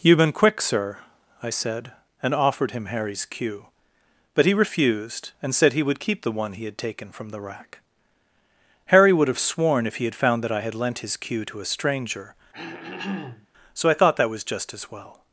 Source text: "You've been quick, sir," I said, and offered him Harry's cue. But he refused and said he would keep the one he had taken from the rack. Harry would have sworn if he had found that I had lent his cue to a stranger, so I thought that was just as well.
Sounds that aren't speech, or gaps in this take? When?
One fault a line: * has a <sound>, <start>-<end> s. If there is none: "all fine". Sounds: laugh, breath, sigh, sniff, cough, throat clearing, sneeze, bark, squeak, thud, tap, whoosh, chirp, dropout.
* has a throat clearing, 12.5-13.5 s